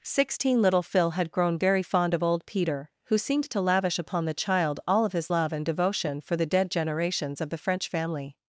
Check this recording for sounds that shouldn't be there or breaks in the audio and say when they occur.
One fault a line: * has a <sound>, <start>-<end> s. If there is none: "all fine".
all fine